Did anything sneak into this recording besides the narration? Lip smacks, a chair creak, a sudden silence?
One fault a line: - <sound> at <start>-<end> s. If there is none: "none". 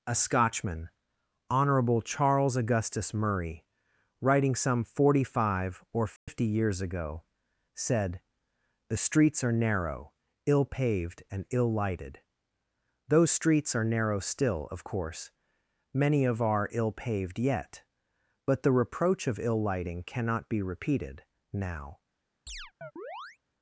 - dropout at 6.2-6.3 s
- chirp at 22.5-23.4 s